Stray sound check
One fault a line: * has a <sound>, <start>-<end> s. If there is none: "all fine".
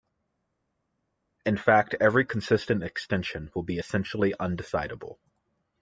all fine